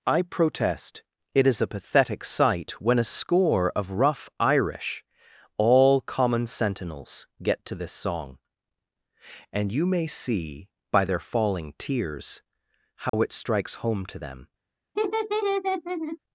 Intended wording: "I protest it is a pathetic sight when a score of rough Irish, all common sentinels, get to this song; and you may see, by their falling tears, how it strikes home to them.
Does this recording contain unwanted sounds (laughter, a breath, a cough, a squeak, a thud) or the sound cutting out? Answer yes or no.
yes